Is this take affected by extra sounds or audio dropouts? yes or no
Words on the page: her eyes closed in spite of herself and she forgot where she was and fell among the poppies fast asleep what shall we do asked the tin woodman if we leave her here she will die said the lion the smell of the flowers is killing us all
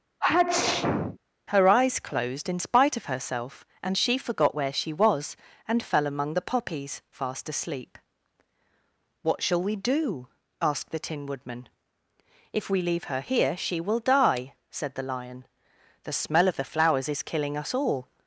yes